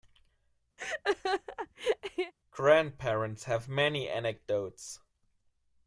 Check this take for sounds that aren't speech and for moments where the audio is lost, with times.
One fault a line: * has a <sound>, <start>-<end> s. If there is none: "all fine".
* has a laugh, 0.8-2.3 s